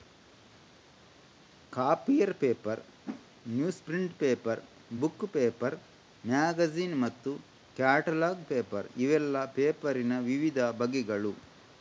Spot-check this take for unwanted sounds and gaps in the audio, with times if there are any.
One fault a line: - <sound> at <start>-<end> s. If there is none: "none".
- whoosh at 3.0-3.3 s